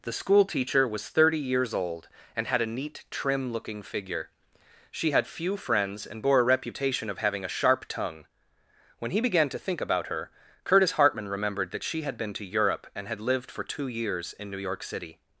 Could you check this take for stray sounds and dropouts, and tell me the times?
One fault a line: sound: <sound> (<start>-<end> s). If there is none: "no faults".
no faults